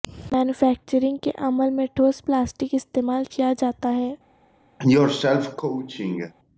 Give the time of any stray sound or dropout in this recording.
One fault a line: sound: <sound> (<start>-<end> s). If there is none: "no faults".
sound: cough (4.8-6.3 s)